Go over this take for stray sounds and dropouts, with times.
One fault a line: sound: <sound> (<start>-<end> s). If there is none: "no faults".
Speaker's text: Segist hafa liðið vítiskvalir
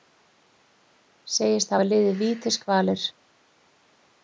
no faults